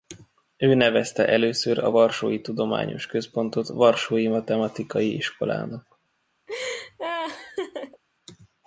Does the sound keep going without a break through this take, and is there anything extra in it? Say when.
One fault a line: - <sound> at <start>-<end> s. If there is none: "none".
- laugh at 6.5-8.0 s